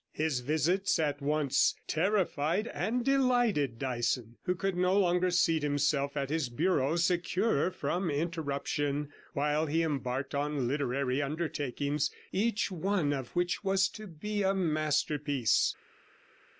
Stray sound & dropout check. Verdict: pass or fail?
pass